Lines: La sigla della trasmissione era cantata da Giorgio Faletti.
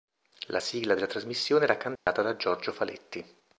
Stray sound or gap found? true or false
true